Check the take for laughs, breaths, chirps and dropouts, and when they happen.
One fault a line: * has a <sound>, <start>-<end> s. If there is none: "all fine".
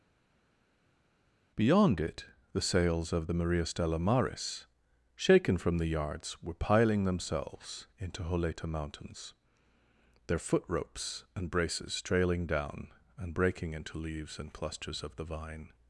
all fine